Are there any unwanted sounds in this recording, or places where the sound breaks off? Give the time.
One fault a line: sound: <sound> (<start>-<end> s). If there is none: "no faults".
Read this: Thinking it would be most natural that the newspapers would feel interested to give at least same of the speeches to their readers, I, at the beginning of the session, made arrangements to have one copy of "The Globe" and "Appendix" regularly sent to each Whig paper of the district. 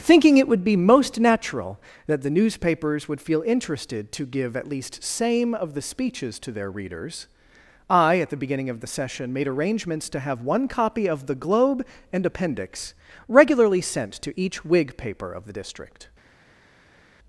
no faults